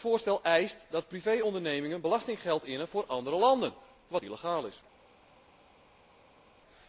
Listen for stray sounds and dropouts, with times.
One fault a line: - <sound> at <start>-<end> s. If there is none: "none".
none